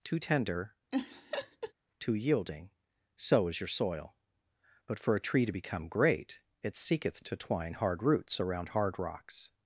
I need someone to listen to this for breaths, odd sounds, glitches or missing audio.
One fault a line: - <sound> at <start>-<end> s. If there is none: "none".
- laugh at 0.9-1.7 s